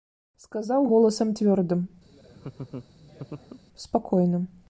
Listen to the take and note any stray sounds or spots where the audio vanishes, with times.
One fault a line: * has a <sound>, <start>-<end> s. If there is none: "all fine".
* has a laugh, 2.1-3.6 s